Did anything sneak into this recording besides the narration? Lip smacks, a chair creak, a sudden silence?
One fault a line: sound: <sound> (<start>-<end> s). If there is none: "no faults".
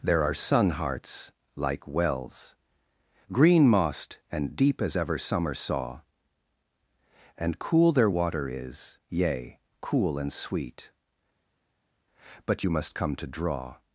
no faults